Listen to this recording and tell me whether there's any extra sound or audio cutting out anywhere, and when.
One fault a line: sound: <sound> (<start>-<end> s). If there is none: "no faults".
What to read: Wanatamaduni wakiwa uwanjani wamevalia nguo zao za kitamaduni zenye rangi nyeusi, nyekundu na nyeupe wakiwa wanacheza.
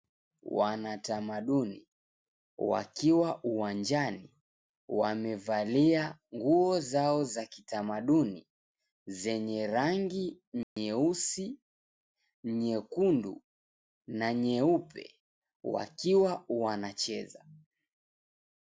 sound: dropout (10.6-10.8 s)